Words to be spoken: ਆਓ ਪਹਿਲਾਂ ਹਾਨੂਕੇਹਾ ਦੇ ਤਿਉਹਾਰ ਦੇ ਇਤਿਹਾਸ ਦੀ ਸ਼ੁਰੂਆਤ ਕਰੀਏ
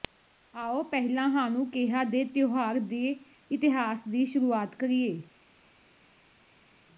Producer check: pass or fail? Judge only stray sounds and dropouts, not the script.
pass